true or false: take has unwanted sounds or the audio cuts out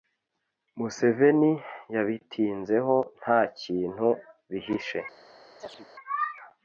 true